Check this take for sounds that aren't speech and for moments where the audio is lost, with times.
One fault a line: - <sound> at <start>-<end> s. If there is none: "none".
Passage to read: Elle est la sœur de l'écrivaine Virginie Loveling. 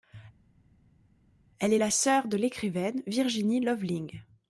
none